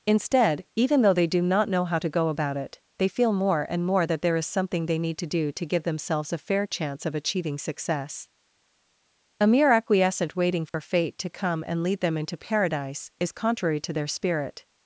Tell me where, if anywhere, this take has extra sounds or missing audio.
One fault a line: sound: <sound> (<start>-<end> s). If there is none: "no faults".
sound: dropout (10.7-10.7 s)